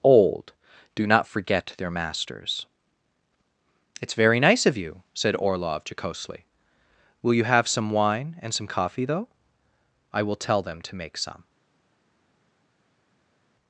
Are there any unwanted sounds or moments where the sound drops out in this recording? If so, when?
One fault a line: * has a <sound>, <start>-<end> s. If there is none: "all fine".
all fine